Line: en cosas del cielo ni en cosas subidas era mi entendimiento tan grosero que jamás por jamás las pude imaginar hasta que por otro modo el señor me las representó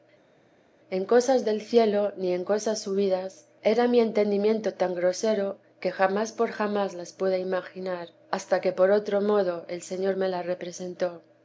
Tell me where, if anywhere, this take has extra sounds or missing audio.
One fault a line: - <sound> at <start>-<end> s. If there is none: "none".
none